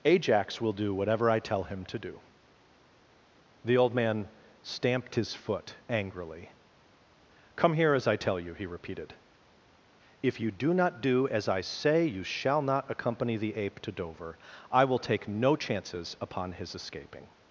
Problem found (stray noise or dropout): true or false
false